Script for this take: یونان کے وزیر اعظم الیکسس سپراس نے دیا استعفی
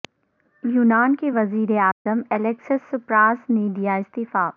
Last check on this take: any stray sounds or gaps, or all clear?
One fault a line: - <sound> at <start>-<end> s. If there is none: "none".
- dropout at 1.9-2.1 s